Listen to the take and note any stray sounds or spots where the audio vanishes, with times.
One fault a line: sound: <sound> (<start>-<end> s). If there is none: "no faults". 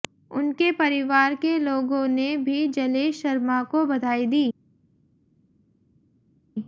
no faults